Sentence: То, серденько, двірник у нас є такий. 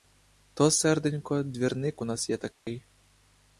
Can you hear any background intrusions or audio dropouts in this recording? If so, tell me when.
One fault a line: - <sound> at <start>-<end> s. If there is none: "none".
- dropout at 2.5-2.7 s